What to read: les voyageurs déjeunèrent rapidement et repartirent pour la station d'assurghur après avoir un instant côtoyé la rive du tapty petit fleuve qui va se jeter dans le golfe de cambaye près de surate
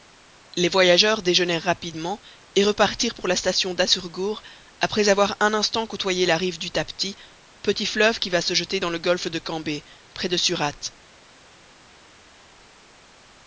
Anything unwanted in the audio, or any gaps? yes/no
no